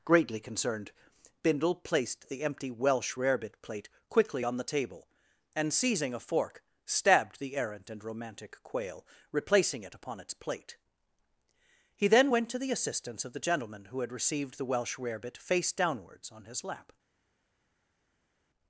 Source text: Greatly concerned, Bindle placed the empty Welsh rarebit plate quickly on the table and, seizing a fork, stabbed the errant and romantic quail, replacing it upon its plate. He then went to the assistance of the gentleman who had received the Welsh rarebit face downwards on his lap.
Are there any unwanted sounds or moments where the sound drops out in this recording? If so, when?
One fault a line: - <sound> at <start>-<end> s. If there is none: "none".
none